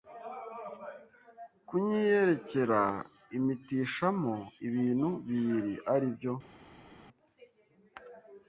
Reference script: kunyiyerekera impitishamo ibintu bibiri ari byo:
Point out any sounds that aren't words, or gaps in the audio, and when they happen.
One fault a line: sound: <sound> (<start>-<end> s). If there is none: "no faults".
no faults